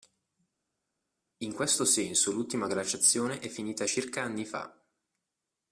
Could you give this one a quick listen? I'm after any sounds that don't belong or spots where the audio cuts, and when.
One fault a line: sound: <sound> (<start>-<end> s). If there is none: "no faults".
no faults